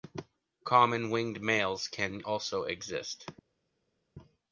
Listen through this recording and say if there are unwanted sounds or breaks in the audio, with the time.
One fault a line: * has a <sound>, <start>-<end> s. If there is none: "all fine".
all fine